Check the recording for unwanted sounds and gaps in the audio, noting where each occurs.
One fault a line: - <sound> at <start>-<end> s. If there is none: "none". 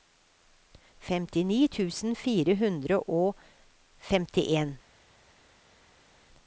none